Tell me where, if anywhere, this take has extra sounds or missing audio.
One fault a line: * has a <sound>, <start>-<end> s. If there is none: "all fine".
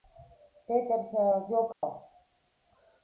* has a dropout, 1.7-1.8 s